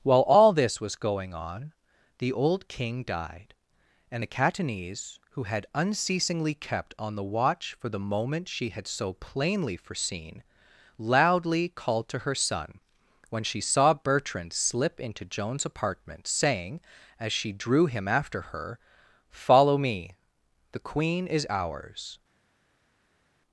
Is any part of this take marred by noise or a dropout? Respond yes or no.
no